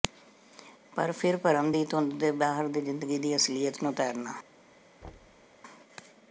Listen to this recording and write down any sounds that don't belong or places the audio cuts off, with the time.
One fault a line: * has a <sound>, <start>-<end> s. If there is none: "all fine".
* has a thud, 5.0-5.5 s